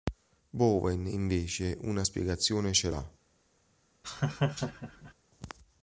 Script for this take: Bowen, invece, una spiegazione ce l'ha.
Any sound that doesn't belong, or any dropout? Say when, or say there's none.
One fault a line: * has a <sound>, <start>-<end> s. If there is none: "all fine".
* has a laugh, 4.0-5.1 s